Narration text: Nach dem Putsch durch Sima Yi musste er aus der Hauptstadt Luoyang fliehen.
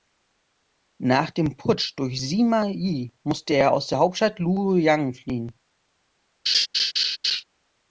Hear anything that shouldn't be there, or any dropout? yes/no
yes